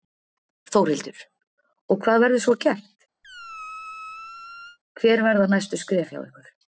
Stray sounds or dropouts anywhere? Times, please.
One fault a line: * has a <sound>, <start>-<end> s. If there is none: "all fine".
* has a squeak, 3.2-4.8 s